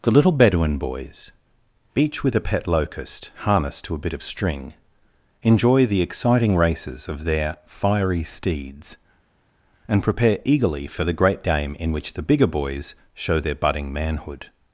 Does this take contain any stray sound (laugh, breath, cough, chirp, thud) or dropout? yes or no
no